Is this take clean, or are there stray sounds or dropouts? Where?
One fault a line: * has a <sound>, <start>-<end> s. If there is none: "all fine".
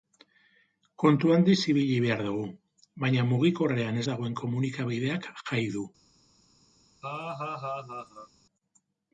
* has a laugh, 7.0-8.3 s